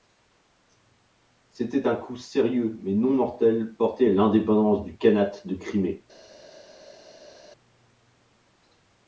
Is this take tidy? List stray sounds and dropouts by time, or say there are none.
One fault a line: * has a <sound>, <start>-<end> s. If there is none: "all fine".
all fine